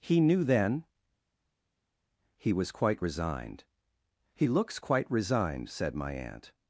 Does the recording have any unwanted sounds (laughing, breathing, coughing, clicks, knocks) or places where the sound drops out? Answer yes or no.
no